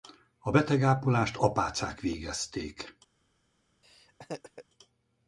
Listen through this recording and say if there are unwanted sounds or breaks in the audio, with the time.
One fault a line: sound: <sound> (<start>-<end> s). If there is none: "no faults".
sound: laugh (3.8-4.6 s)